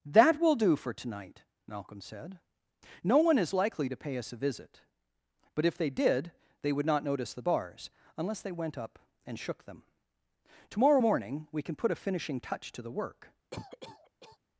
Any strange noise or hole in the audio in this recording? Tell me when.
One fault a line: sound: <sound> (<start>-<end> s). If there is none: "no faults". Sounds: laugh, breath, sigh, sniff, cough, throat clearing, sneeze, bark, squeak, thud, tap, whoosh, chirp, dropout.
sound: cough (13.5-14.4 s)